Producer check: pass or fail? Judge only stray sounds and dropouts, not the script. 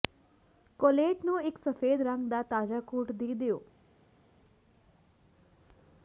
pass